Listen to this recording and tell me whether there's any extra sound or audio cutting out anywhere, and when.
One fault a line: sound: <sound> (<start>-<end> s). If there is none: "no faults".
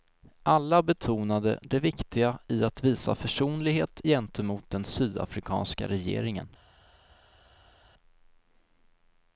no faults